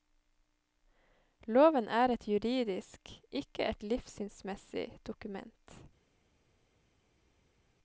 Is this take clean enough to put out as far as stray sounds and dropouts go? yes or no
yes